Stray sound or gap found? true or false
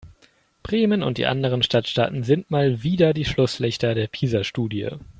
false